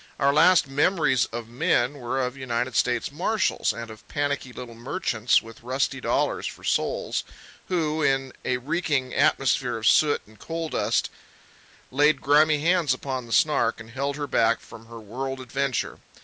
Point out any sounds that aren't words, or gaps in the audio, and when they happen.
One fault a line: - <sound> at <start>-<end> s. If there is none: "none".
none